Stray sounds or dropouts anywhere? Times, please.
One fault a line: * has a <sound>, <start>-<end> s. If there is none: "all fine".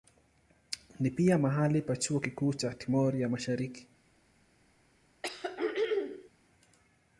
* has a throat clearing, 5.2-6.3 s